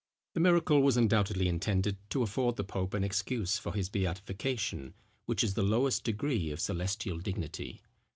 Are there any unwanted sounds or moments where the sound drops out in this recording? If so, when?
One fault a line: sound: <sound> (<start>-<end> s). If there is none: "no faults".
no faults